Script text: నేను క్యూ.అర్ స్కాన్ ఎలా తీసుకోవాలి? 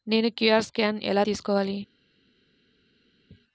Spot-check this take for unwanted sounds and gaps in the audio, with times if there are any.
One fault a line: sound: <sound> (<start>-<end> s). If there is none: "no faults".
no faults